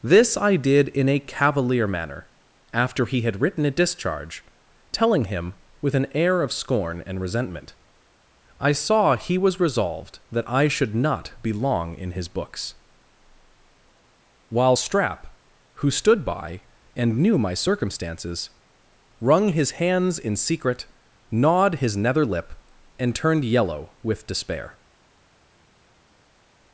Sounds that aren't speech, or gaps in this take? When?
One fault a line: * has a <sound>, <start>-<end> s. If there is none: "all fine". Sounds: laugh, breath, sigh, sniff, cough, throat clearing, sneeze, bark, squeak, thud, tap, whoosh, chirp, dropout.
all fine